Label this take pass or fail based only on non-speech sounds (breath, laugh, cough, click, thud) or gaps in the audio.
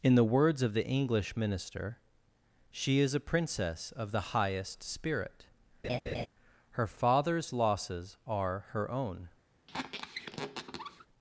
fail